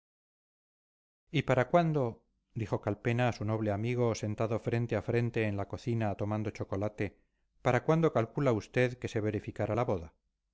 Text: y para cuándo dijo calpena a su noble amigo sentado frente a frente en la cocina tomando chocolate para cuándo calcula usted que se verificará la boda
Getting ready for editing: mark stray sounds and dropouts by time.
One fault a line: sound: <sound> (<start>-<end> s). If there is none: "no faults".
no faults